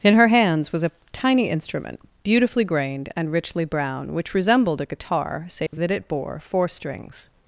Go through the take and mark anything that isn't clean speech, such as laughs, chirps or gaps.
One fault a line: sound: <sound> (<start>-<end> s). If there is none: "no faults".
sound: dropout (5.7-5.7 s)